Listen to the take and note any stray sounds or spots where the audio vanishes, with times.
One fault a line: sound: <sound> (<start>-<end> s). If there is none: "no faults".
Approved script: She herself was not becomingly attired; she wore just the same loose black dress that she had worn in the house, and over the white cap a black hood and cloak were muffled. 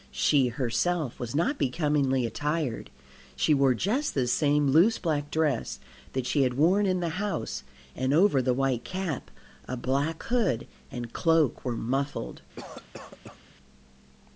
sound: cough (12.6-13.4 s)